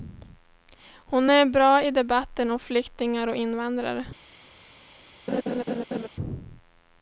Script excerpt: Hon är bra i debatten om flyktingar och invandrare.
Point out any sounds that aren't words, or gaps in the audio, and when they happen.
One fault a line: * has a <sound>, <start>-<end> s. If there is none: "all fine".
* has a laugh, 5.3-6.1 s